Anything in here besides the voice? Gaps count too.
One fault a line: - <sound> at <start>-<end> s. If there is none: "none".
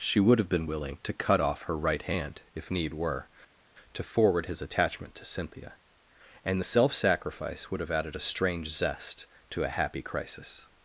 none